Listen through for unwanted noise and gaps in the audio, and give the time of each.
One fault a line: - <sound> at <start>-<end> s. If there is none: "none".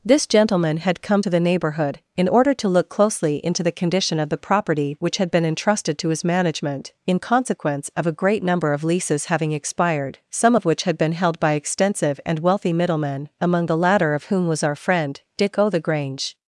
none